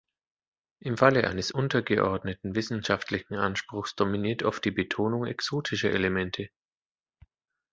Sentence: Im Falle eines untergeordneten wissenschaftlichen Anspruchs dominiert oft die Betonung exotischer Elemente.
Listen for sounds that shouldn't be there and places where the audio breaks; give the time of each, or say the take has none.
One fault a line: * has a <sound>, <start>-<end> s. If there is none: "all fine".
all fine